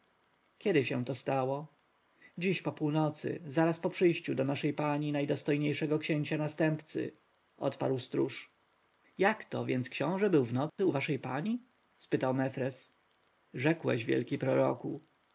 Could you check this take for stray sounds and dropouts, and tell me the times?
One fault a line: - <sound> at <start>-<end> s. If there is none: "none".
- dropout at 10.7-10.8 s